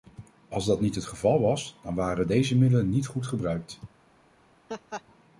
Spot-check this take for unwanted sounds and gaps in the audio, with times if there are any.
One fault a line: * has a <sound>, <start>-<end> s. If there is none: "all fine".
* has a laugh, 4.7-5.0 s